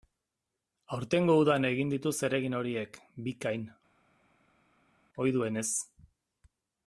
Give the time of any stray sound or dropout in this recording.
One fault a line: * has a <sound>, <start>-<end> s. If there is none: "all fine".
all fine